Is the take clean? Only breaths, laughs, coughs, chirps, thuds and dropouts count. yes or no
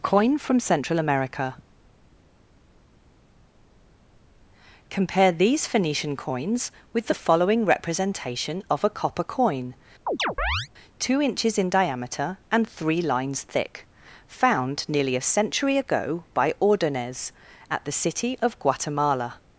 no